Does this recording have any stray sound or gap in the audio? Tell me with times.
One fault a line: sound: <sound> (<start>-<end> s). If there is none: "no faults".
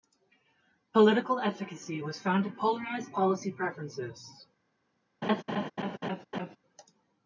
sound: laugh (5.2-6.6 s)